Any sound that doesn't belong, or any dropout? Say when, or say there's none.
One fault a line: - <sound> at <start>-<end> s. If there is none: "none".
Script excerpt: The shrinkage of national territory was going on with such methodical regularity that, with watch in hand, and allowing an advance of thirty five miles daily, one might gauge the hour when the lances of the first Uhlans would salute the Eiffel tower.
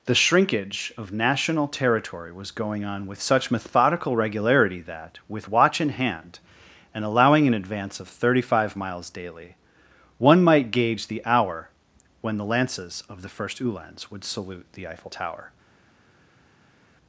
none